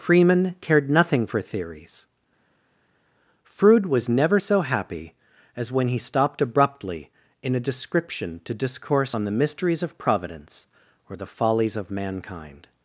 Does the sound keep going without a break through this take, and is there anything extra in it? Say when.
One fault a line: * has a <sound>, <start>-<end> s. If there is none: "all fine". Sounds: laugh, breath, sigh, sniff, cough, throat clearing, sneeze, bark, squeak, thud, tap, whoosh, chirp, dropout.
all fine